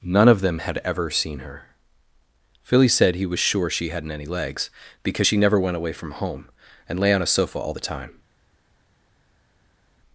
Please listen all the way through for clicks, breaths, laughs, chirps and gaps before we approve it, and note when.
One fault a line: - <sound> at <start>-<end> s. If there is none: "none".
none